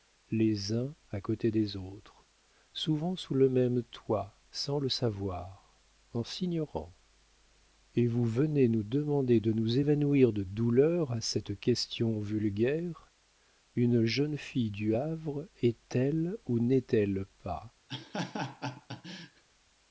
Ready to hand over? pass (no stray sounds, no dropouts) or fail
fail